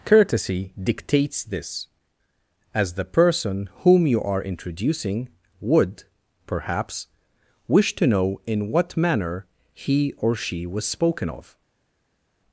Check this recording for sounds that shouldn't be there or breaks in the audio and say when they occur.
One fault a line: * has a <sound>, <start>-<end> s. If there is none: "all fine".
all fine